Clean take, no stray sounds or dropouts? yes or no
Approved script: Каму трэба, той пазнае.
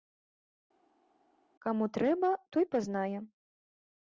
yes